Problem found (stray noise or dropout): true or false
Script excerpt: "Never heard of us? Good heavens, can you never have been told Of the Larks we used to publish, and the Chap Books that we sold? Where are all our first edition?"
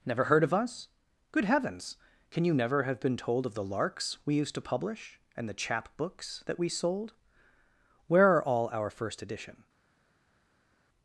false